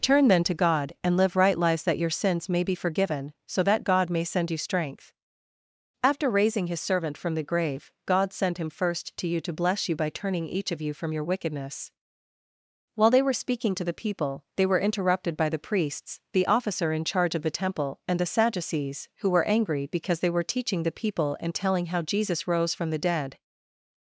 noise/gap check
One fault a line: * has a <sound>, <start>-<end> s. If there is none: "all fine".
all fine